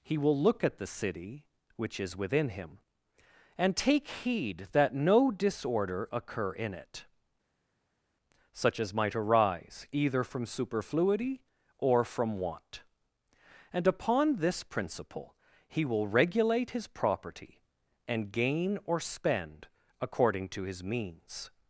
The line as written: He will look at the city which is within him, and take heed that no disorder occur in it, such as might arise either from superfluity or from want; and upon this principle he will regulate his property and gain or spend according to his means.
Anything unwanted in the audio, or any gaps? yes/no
no